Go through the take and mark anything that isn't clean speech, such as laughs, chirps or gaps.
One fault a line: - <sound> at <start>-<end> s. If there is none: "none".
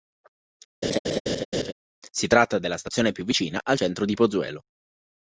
- laugh at 0.8-1.7 s